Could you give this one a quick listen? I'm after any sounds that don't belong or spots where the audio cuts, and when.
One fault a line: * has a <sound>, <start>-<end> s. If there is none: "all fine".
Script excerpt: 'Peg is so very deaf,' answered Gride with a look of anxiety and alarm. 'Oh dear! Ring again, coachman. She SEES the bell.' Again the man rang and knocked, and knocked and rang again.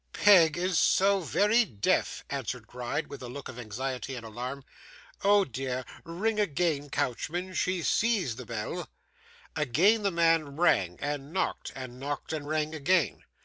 all fine